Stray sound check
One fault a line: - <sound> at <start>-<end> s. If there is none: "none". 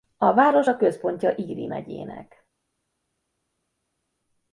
none